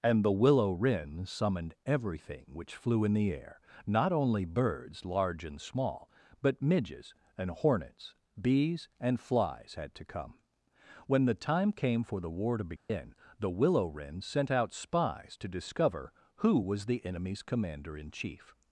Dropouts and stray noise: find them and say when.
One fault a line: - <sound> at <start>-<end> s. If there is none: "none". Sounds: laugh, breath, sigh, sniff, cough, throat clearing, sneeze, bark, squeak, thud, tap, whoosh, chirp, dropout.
- dropout at 12.8-12.9 s